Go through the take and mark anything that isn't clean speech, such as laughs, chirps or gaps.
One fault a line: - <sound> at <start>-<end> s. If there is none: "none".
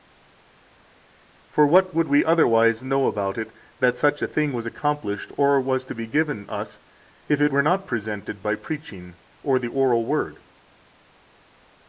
none